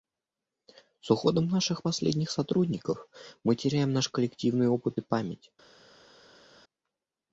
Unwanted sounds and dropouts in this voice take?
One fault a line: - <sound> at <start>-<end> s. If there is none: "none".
none